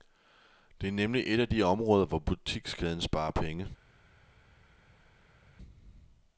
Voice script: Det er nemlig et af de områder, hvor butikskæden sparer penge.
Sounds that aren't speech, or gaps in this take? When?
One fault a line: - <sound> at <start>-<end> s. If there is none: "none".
none